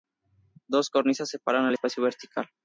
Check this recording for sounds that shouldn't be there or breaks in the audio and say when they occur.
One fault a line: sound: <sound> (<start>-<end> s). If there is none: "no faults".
no faults